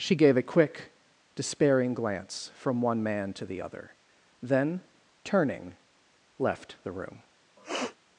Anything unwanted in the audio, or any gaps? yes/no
yes